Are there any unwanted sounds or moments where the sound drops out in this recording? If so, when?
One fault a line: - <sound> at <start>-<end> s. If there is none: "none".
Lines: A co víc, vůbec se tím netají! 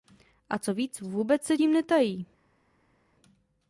none